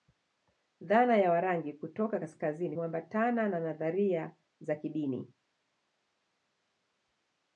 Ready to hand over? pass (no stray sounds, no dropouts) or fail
pass